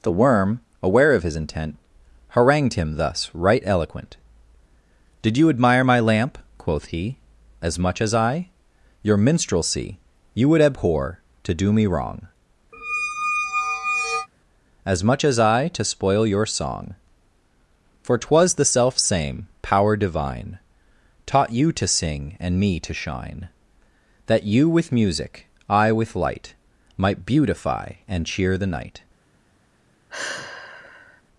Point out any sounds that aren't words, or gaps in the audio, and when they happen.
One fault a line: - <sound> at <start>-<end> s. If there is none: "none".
- squeak at 12.7-14.3 s
- sigh at 30.1-31.2 s